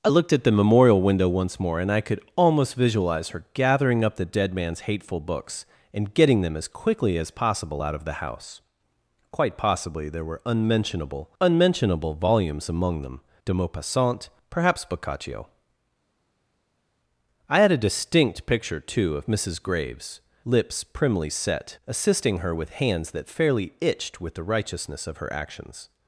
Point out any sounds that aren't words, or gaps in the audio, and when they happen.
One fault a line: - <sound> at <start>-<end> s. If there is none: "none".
none